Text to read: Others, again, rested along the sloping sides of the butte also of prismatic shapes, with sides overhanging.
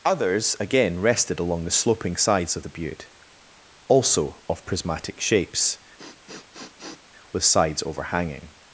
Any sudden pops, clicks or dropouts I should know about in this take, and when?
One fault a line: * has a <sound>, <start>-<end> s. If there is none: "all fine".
* has a sniff, 6.0-7.0 s